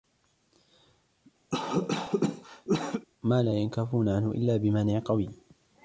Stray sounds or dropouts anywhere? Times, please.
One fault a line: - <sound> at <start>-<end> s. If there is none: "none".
- cough at 1.5-3.1 s